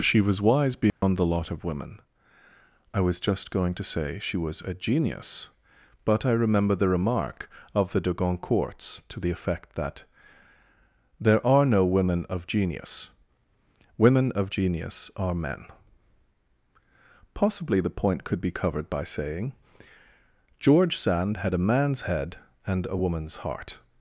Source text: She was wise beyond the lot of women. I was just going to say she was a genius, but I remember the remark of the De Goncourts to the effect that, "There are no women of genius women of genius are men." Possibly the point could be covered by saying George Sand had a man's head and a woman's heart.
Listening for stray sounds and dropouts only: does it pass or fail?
fail